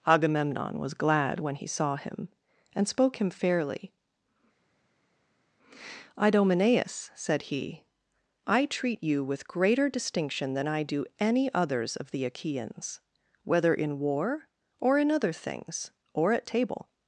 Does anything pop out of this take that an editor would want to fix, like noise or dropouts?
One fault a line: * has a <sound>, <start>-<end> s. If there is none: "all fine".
all fine